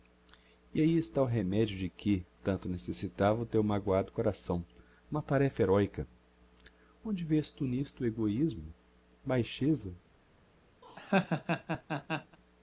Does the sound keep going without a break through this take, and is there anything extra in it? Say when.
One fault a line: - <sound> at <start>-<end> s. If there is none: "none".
- laugh at 10.8-12.4 s